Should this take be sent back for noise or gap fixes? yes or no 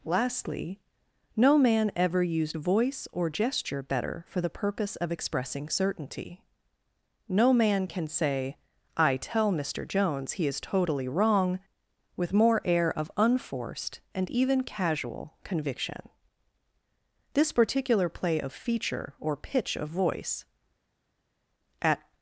no